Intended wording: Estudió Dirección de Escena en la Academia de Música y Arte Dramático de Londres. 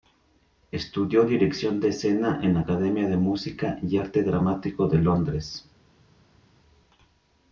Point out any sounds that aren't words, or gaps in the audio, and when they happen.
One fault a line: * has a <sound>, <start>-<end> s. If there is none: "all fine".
all fine